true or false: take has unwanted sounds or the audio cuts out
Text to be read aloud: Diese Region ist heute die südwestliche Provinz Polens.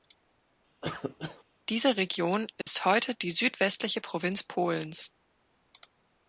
true